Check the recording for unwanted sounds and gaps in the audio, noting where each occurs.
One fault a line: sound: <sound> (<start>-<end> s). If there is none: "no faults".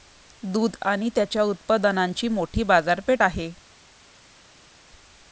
no faults